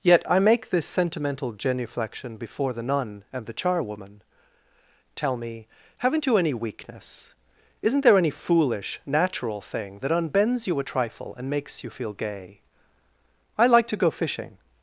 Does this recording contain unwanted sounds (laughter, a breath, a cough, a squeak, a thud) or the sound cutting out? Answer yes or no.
no